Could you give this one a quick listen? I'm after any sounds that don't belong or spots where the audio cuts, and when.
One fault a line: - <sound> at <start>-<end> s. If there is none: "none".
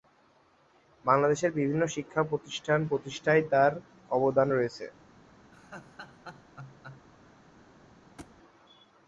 - laugh at 5.5-7.1 s
- thud at 8.2-8.4 s